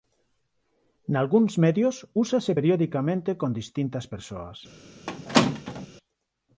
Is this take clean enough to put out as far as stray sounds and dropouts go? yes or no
no